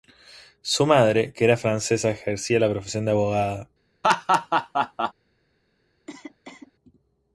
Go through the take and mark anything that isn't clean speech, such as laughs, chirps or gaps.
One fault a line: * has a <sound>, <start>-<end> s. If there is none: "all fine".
* has a laugh, 4.0-5.1 s
* has a cough, 6.1-6.7 s